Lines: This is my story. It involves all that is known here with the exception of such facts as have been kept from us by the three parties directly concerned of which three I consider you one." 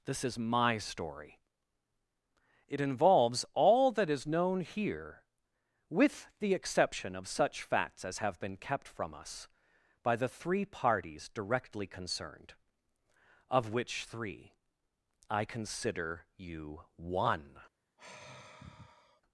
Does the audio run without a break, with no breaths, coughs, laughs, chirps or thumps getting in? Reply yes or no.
no